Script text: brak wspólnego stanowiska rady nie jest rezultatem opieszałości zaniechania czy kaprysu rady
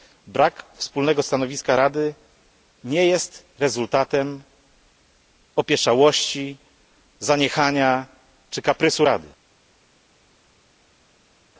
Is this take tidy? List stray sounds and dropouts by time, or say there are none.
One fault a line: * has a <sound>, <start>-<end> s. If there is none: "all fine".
all fine